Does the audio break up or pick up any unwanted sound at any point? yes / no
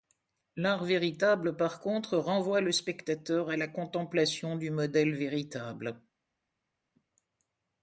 no